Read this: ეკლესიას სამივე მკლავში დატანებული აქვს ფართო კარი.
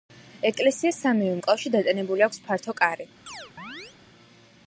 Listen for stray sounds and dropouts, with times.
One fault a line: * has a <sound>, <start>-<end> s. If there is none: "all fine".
* has a chirp, 3.3-4.0 s